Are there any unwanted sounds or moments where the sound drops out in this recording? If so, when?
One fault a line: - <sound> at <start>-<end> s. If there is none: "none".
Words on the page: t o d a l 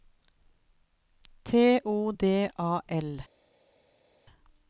none